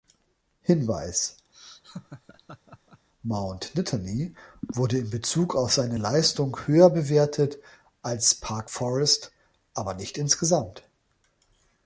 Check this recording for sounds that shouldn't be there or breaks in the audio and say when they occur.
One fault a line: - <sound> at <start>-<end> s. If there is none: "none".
- laugh at 1.5-3.1 s